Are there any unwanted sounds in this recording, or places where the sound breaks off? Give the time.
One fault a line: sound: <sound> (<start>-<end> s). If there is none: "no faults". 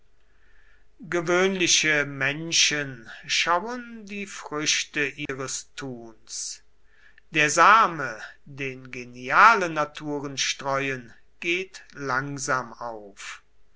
sound: dropout (5.3-5.3 s)